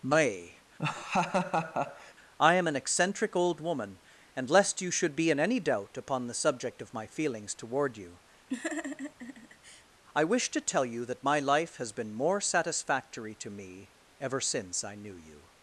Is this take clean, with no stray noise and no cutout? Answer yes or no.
no